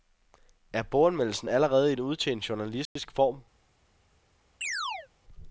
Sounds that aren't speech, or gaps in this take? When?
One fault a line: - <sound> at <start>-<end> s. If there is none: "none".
- dropout at 2.9-3.0 s
- chirp at 4.6-5.1 s